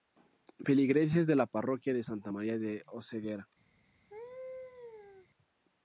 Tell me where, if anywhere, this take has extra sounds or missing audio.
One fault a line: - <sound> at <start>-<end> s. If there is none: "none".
- laugh at 4.1-5.3 s